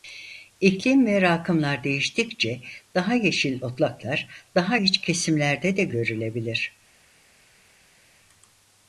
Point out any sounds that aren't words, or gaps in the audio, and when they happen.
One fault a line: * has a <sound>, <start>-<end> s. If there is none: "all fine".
all fine